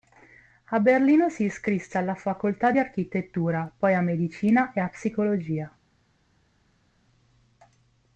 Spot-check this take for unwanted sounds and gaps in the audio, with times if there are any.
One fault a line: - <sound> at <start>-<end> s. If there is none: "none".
none